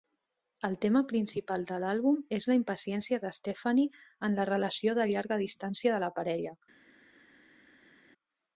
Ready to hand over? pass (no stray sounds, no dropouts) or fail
pass